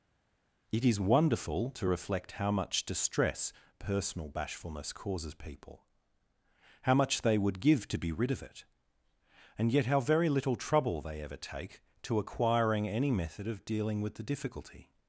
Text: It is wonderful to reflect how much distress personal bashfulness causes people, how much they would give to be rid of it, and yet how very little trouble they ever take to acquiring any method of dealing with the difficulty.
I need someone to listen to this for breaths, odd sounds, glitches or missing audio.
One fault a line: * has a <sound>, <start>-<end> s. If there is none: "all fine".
all fine